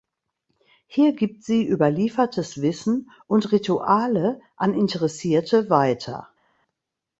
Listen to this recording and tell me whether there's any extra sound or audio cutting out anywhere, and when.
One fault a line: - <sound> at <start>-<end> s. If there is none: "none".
none